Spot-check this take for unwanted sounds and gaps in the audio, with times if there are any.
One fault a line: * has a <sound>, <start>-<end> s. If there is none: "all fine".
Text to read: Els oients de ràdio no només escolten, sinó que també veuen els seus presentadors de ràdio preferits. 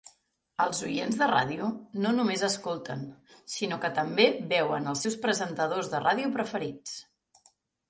all fine